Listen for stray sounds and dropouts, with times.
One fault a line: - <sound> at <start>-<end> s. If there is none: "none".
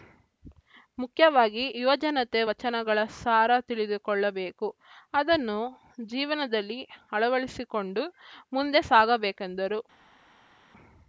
none